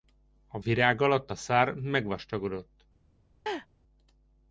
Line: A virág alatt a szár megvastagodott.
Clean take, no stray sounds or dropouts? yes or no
no